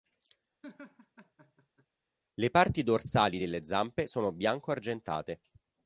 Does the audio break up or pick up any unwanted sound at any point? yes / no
yes